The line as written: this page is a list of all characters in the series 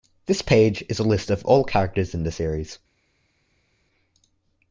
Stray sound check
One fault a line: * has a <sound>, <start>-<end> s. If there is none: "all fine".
all fine